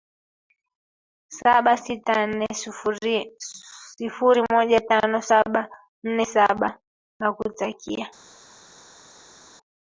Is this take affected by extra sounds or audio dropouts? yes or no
no